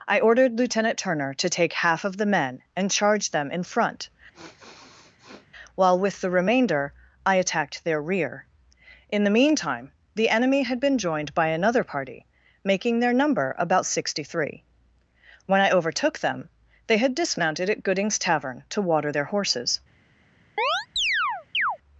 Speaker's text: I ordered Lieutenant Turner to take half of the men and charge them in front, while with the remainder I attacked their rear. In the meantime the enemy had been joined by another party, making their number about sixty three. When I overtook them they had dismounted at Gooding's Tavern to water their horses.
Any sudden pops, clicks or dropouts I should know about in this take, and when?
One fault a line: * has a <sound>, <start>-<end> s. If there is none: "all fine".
* has a sniff, 4.3-5.5 s
* has a chirp, 20.6-21.8 s